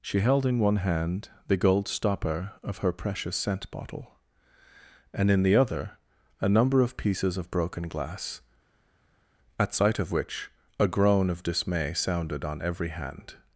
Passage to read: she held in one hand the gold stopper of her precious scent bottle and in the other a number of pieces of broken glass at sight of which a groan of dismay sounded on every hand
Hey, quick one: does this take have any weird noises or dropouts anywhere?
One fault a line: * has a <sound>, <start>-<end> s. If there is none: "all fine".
all fine